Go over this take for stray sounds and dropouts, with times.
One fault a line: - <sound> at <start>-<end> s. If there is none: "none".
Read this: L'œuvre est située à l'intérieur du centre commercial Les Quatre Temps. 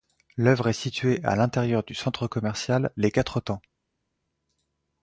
none